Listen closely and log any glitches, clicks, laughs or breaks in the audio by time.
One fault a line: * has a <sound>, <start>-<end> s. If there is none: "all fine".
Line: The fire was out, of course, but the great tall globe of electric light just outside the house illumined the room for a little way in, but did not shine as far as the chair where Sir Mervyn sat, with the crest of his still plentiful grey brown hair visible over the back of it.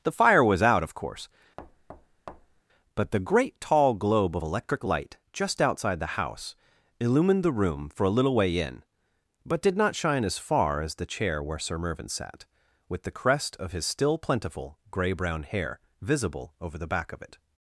* has a thud, 1.6-2.6 s